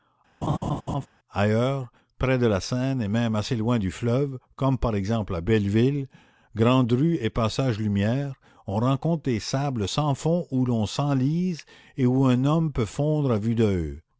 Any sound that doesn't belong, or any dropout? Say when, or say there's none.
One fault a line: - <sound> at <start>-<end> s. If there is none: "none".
- laugh at 0.4-1.1 s